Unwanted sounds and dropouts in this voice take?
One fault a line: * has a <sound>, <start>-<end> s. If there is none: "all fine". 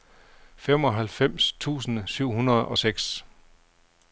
all fine